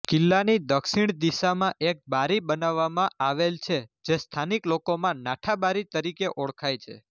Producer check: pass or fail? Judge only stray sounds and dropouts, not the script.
pass